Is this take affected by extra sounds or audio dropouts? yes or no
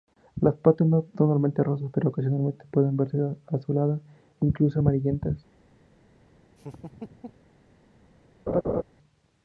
yes